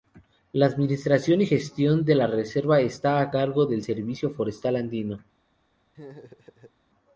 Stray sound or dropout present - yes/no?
yes